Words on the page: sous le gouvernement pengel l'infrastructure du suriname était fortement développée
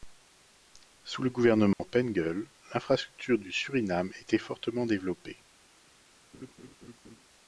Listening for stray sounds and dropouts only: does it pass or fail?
fail